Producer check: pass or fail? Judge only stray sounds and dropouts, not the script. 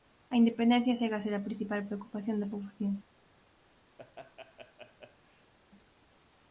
fail